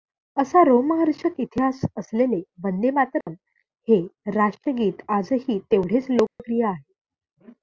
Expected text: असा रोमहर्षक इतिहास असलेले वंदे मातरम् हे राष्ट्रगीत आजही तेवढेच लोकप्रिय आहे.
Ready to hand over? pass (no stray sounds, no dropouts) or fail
fail